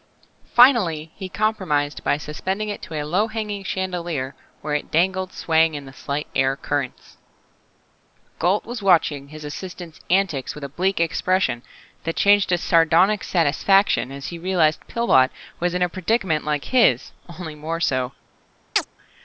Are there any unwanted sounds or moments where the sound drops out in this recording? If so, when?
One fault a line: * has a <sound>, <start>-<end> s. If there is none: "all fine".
* has a chirp, 18.8-18.9 s